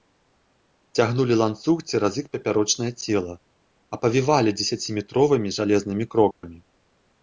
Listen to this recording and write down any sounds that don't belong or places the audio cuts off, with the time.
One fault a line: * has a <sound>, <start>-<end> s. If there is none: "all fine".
* has a dropout, 6.3-6.4 s